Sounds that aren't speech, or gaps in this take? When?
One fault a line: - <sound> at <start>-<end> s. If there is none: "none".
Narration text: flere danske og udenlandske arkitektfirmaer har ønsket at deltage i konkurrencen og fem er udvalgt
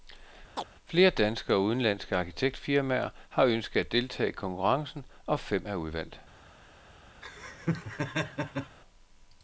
- chirp at 0.6-0.7 s
- laugh at 7.2-8.8 s